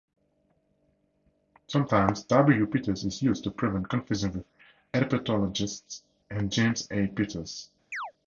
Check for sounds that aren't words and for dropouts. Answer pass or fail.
fail